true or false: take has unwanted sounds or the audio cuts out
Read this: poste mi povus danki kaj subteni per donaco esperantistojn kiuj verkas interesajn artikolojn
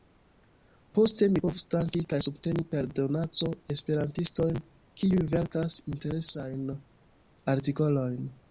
false